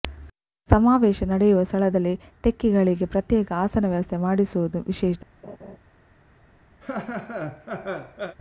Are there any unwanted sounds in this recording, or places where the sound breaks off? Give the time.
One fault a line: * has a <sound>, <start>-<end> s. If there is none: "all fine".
* has a laugh, 5.4-5.8 s
* has a laugh, 6.8-8.4 s